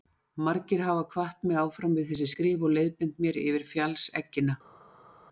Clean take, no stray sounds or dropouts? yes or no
yes